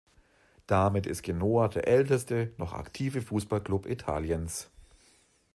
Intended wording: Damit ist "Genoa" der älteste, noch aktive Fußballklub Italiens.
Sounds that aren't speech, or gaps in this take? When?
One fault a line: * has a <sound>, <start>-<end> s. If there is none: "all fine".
all fine